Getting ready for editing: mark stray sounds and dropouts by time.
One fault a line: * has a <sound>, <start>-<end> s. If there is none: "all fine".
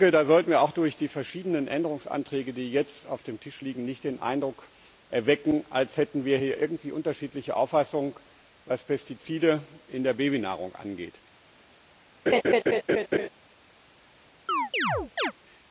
* has a laugh, 12.3-13.3 s
* has a chirp, 14.5-15.3 s